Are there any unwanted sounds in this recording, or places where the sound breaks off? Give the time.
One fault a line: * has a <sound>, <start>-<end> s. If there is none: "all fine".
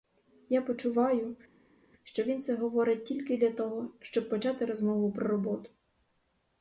all fine